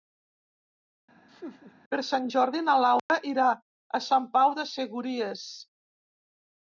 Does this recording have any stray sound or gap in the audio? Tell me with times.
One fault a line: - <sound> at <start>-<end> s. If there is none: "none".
- laugh at 1.3-1.7 s
- dropout at 3.0-3.1 s